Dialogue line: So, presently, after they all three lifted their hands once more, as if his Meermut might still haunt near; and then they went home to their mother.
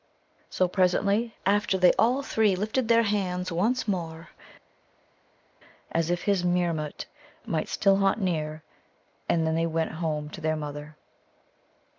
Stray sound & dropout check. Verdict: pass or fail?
pass